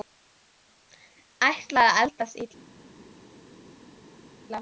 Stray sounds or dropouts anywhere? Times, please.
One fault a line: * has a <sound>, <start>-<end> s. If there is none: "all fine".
all fine